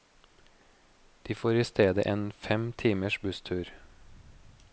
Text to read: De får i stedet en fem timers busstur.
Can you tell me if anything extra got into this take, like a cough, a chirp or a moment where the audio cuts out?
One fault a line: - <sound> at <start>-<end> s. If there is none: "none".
none